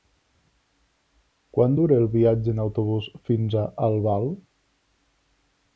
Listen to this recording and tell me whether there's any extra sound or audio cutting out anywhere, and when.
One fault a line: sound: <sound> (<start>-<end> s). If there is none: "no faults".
no faults